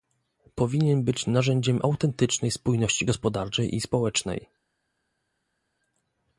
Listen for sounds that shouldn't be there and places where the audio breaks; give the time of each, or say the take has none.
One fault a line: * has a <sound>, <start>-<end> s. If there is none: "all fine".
all fine